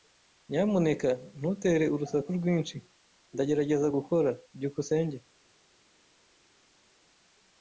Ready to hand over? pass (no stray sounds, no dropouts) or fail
pass